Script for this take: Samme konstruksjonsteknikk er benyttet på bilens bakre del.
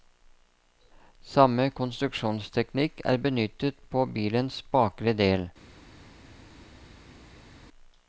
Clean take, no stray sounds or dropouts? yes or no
yes